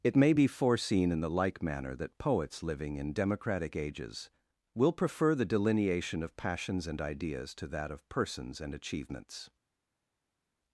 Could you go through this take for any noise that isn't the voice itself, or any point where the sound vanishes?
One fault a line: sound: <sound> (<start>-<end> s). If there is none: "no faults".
no faults